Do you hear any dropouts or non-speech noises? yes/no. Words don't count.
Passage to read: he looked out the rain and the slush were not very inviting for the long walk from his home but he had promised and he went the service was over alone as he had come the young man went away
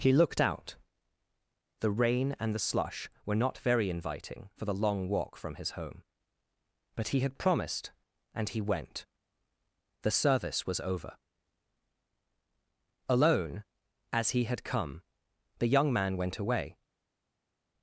no